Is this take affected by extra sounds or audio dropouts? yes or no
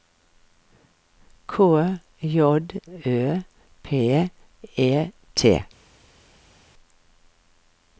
no